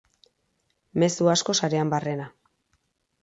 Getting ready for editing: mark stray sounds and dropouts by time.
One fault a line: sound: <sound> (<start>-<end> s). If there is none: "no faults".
no faults